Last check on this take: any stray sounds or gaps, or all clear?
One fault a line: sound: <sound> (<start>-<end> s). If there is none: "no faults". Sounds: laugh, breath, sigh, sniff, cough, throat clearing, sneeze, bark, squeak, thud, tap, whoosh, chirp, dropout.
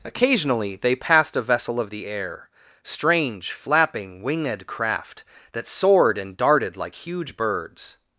no faults